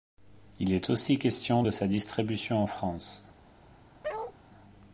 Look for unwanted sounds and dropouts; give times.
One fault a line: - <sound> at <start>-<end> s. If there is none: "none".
- bark at 4.0-4.4 s